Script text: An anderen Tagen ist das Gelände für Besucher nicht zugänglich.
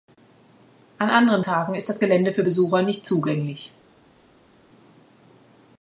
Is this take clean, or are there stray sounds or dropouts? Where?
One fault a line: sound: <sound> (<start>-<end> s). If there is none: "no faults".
no faults